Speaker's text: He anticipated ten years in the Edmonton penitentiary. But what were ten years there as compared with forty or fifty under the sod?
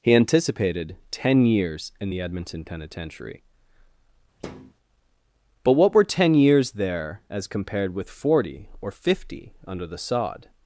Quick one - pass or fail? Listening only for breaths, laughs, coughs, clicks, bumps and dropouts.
fail